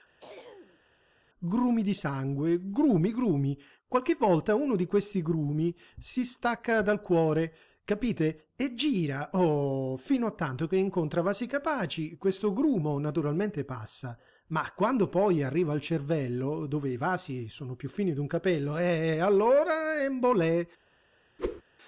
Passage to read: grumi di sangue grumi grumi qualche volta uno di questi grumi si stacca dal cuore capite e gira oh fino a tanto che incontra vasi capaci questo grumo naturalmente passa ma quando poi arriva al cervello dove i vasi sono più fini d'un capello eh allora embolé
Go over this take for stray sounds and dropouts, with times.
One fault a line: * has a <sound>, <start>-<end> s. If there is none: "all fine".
* has a throat clearing, 0.2-0.8 s
* has a whoosh, 21.4-21.6 s